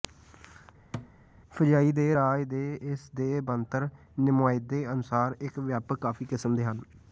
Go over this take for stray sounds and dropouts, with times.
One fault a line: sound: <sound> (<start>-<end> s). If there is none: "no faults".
sound: thud (0.9-1.1 s)